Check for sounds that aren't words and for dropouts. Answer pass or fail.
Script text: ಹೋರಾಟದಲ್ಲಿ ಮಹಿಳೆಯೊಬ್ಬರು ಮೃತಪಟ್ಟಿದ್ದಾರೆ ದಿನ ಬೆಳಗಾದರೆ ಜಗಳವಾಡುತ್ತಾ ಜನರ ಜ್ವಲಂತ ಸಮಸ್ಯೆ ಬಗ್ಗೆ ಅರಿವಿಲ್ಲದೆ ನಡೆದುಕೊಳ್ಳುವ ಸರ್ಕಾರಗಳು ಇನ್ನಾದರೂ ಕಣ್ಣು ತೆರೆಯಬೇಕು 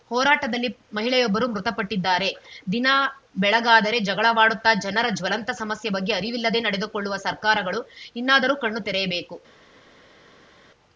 pass